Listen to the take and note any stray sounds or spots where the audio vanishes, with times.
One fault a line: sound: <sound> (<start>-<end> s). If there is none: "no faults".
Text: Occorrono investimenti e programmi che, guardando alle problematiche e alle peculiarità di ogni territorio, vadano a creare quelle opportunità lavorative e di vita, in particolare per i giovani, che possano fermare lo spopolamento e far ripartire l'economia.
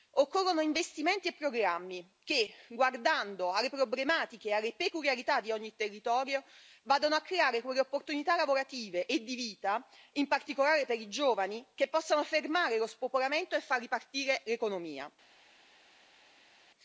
no faults